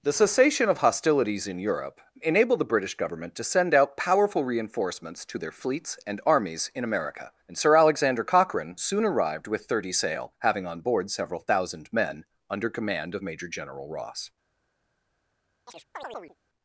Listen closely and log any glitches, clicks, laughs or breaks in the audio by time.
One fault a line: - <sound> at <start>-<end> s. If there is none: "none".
- chirp at 15.7-16.4 s